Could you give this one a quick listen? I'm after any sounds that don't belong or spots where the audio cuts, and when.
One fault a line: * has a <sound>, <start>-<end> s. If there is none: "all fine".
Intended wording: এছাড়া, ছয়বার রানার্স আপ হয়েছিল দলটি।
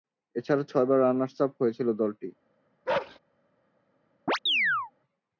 * has a bark, 2.9-3.2 s
* has a chirp, 4.3-4.9 s